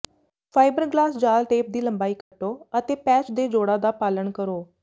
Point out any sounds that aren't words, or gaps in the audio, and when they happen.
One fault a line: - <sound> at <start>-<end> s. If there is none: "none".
- dropout at 2.2-2.3 s